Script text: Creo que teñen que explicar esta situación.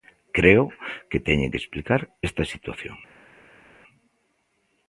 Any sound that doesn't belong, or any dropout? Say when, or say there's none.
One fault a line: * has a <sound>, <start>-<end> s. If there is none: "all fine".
all fine